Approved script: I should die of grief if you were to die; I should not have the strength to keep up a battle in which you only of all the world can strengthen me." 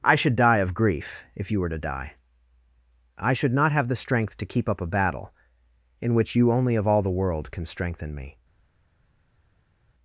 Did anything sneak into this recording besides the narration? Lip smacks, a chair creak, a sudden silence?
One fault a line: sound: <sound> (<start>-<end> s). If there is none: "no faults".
no faults